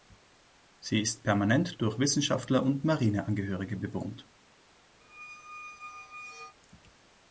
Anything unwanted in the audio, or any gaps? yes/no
yes